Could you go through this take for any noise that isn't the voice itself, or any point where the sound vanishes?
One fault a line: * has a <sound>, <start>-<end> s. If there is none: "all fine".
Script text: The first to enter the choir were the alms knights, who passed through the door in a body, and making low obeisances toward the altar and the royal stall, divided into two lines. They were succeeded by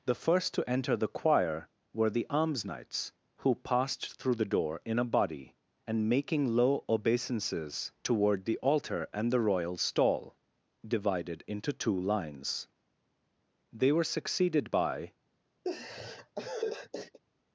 * has a laugh, 15.6-17.2 s